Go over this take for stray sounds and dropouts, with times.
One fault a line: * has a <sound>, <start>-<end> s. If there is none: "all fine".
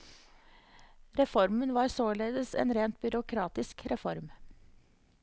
all fine